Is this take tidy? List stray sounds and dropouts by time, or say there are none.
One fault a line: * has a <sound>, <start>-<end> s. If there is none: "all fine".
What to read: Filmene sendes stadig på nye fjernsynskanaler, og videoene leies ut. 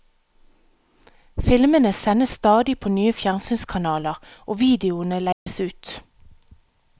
* has a dropout, 5.3-5.5 s